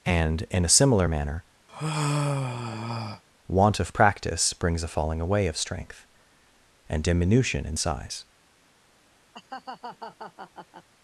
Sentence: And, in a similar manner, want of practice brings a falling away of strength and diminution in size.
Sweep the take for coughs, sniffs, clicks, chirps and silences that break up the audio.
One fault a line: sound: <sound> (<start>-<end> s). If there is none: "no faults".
sound: sigh (1.7-3.2 s)
sound: laugh (9.3-10.9 s)